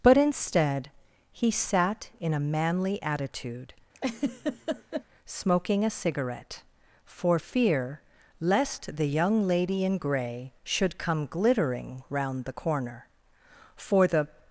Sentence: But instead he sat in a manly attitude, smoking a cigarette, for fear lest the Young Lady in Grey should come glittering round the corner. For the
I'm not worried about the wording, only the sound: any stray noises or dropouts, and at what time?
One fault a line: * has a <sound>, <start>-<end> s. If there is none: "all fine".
* has a laugh, 3.9-5.0 s